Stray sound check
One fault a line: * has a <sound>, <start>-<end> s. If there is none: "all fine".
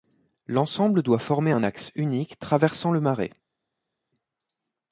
all fine